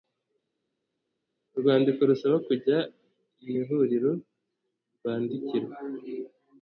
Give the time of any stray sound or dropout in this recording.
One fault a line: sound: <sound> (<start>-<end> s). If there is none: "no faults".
no faults